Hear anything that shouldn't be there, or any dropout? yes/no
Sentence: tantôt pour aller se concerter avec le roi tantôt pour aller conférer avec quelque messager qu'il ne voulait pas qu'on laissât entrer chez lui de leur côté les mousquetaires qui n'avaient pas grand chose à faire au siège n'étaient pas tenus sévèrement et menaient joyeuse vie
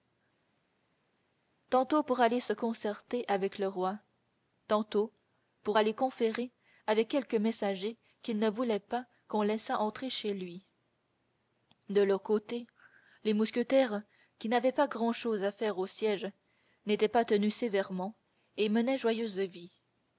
no